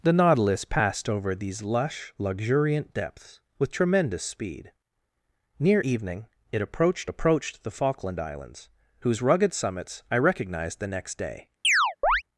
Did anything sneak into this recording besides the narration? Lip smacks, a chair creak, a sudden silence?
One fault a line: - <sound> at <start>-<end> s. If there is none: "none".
- chirp at 11.6-12.2 s